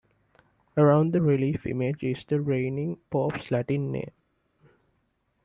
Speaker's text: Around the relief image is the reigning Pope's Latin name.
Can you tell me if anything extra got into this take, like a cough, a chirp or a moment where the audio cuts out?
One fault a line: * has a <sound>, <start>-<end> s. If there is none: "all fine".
all fine